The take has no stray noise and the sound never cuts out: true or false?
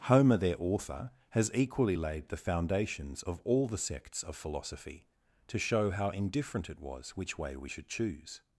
true